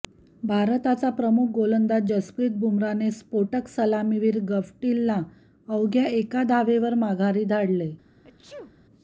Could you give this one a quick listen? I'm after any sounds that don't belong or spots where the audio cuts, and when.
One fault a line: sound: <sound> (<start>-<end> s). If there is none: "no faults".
sound: sneeze (8.2-8.7 s)